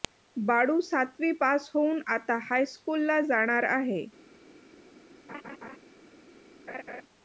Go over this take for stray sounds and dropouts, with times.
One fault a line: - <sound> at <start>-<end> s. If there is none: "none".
- laugh at 5.3-5.8 s
- laugh at 6.7-7.0 s